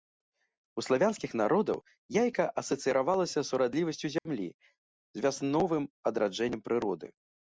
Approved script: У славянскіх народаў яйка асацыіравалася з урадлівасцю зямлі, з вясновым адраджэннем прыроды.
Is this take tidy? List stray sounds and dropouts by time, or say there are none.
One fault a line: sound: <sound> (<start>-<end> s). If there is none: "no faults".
sound: dropout (4.2-4.3 s)